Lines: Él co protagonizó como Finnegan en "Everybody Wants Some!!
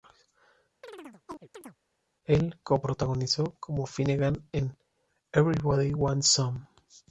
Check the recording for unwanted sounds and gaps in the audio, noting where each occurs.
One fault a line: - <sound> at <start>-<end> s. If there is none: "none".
- chirp at 0.8-1.8 s